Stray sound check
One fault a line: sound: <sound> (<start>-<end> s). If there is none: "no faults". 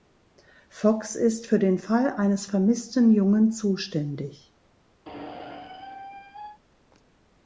sound: squeak (5.1-6.6 s)